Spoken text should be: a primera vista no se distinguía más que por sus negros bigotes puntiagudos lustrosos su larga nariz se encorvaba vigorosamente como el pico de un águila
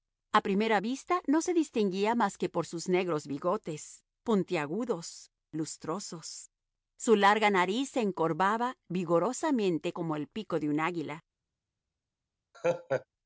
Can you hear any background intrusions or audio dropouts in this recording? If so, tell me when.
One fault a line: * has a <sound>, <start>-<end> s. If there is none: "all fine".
* has a laugh, 12.5-13.1 s